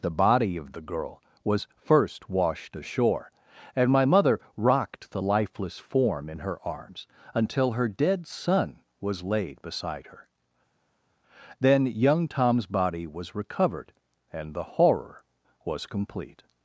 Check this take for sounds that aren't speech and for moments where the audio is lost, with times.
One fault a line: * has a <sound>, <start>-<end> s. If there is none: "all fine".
all fine